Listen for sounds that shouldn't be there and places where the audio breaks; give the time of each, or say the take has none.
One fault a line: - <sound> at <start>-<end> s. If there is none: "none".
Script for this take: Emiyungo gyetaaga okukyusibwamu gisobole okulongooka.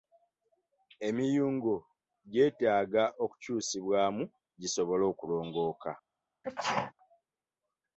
- sneeze at 6.4-6.9 s